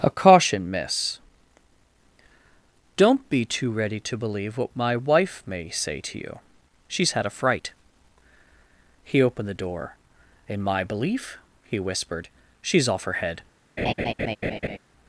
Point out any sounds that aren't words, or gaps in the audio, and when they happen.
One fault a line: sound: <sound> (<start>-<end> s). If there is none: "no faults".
sound: laugh (13.8-14.8 s)